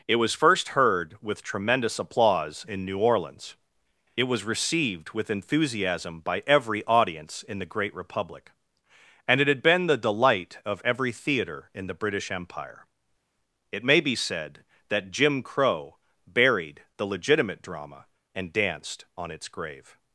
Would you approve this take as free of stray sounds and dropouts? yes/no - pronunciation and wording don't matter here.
yes